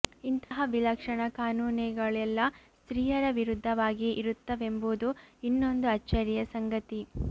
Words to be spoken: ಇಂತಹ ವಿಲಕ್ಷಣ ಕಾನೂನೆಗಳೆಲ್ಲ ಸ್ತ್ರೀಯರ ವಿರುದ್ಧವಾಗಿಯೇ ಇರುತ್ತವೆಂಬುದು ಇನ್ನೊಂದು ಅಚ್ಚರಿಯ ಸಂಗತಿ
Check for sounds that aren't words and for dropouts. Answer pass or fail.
fail